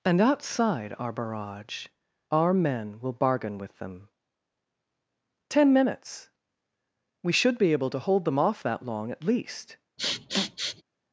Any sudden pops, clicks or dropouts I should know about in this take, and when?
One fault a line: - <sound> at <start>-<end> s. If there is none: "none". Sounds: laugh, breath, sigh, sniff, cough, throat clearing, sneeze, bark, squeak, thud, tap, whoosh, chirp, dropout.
- sniff at 10.0-10.8 s